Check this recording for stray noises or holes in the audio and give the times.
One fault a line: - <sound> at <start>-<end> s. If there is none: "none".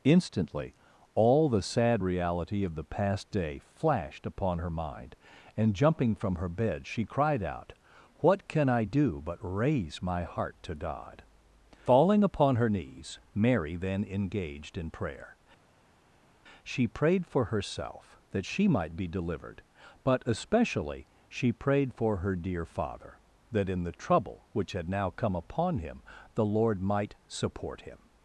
none